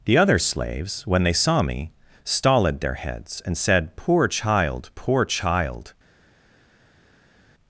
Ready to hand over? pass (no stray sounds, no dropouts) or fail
pass